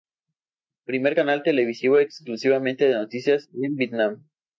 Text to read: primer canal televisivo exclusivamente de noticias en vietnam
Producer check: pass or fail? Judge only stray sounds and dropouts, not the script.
pass